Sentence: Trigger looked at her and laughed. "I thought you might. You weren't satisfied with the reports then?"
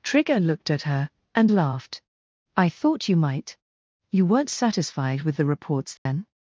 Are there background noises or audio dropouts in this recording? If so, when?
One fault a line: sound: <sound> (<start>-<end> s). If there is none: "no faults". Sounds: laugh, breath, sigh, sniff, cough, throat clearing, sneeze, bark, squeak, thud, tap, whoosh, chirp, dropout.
sound: dropout (6.0-6.1 s)